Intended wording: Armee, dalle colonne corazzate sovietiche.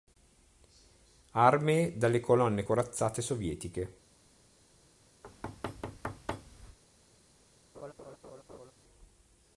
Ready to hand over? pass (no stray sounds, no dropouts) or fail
fail